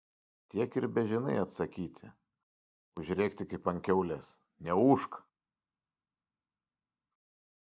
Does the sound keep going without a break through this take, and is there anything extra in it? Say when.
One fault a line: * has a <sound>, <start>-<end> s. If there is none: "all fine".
all fine